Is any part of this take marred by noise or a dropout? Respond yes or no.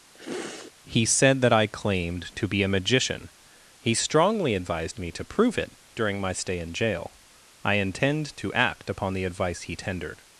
yes